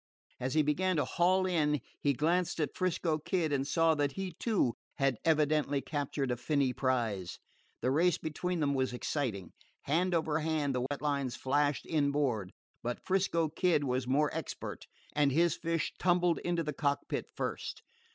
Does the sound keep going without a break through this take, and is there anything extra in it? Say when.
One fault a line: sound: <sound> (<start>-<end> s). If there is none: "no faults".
sound: dropout (10.9-10.9 s)